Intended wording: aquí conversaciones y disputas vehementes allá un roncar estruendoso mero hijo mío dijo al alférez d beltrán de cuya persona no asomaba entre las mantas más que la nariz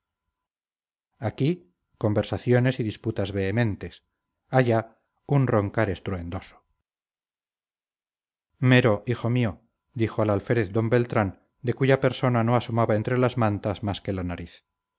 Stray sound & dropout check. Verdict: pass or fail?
pass